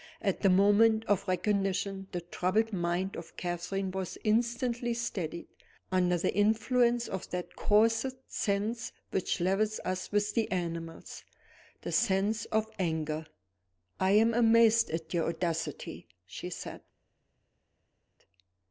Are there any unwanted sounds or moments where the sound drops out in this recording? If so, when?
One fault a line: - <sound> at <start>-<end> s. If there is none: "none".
none